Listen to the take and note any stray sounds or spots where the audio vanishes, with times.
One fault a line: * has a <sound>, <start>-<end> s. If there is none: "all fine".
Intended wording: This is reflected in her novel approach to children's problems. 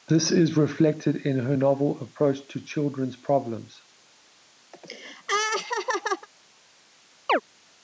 * has a laugh, 4.7-6.3 s
* has a chirp, 7.3-7.4 s